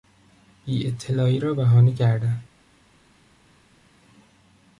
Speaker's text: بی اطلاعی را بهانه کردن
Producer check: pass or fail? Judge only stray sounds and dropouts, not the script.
pass